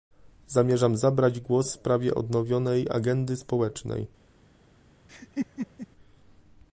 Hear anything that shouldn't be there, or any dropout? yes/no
yes